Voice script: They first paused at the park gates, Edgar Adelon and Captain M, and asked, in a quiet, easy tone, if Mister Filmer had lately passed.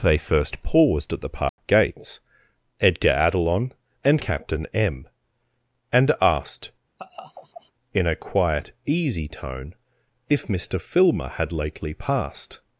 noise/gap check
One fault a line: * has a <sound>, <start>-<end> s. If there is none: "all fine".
* has a dropout, 1.5-1.6 s
* has a laugh, 7.0-7.7 s